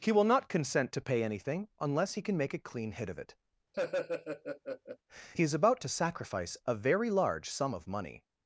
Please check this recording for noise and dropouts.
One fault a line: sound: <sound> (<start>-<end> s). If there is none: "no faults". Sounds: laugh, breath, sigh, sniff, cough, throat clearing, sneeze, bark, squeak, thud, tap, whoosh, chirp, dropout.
sound: laugh (3.7-5.0 s)